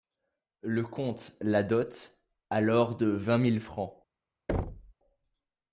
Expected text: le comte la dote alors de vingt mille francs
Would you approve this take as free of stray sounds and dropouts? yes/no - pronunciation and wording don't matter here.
no